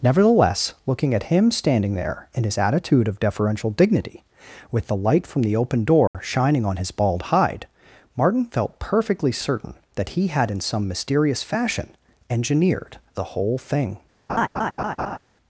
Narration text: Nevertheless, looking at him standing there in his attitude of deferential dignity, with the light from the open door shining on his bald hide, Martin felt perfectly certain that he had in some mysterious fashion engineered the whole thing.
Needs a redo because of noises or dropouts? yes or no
yes